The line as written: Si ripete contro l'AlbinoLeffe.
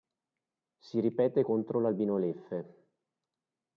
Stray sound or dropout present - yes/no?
no